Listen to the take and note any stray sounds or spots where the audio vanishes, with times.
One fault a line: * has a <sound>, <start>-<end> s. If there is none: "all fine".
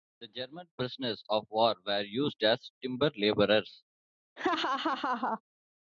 * has a laugh, 4.4-5.4 s